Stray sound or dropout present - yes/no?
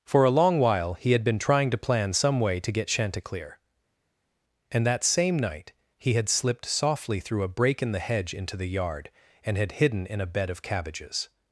no